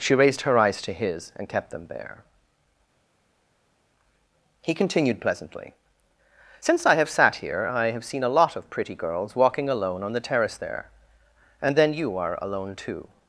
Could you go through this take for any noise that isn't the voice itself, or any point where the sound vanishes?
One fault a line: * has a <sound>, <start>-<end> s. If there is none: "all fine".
all fine